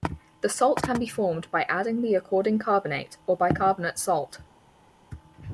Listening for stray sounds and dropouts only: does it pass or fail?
pass